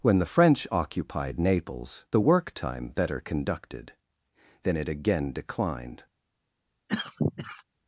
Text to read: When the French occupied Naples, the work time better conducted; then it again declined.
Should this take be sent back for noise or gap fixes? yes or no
yes